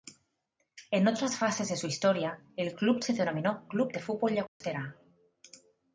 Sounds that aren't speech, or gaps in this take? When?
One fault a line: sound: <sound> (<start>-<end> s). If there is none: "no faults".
sound: dropout (4.5-4.6 s)